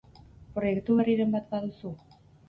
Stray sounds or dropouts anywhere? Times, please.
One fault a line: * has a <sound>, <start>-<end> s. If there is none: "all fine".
all fine